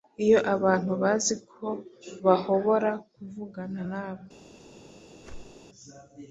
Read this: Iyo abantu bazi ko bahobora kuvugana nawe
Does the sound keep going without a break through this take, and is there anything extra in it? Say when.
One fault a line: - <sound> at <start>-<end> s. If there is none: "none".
- whoosh at 5.2-5.7 s